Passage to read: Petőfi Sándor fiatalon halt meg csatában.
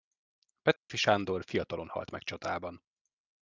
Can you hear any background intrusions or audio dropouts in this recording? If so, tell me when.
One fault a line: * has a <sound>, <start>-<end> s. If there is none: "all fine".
* has a dropout, 0.8-0.9 s